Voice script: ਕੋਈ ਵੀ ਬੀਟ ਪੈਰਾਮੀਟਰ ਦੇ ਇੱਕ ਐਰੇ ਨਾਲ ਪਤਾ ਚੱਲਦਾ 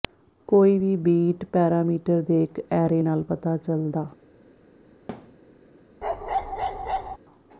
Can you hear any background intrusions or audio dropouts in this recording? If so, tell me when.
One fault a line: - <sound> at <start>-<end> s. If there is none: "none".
- thud at 5.1-5.4 s
- bark at 6.0-7.2 s